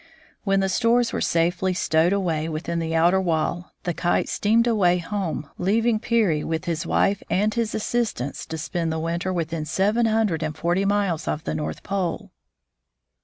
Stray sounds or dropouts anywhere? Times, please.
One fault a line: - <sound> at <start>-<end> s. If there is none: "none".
none